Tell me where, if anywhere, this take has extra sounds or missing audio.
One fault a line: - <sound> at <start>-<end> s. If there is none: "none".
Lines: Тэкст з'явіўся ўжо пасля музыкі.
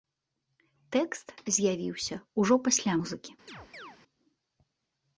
- chirp at 3.5-4.0 s